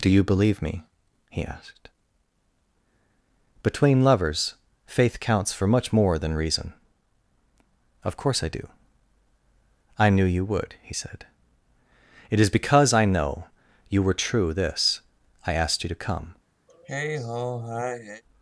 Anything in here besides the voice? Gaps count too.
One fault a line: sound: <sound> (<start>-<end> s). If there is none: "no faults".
sound: sigh (16.7-18.2 s)